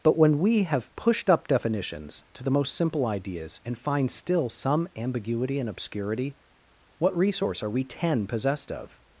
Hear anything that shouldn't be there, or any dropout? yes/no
no